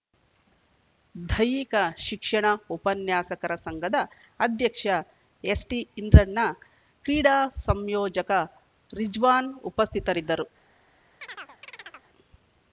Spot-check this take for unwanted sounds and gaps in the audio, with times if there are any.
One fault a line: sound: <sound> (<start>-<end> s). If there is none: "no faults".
sound: chirp (11.2-12.1 s)